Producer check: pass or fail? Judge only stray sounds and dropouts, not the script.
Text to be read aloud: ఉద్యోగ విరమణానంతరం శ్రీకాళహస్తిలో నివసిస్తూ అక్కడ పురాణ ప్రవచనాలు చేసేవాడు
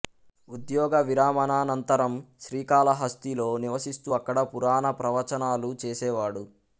pass